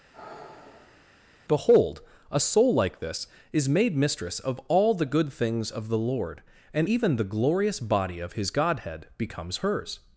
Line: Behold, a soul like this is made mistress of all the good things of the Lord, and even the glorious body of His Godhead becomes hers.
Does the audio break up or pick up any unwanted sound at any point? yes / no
yes